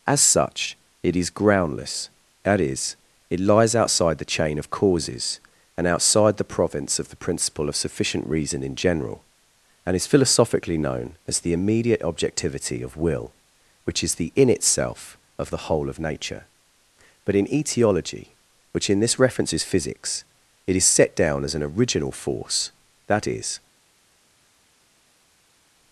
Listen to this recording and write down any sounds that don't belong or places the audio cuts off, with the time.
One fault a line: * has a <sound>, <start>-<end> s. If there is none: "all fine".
all fine